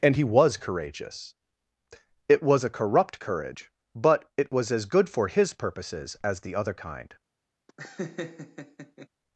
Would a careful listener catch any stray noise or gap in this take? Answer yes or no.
yes